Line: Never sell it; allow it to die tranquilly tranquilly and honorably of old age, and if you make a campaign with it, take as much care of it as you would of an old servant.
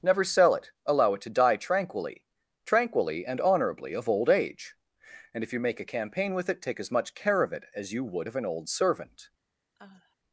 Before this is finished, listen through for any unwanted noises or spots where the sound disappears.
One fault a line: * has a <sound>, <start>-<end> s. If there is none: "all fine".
* has a sigh, 9.8-10.2 s